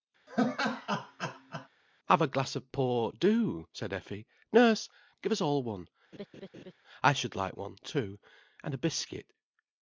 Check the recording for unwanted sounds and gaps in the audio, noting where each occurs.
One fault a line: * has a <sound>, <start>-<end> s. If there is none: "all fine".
* has a laugh, 0.3-1.7 s
* has a laugh, 6.1-6.7 s